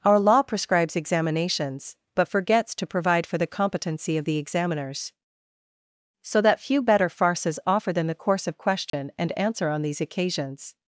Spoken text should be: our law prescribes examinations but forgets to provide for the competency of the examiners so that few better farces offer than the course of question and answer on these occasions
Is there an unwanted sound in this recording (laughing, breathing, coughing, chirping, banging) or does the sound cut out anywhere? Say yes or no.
yes